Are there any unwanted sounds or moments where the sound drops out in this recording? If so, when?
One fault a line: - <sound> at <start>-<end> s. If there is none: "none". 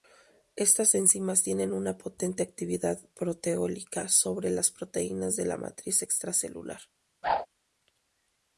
- whoosh at 7.2-7.5 s